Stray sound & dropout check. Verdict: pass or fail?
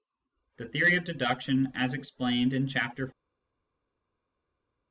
pass